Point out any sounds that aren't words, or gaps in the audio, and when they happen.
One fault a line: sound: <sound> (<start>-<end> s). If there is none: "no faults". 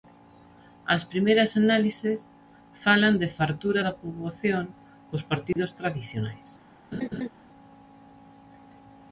sound: dropout (5.5-5.6 s)
sound: laugh (6.9-7.3 s)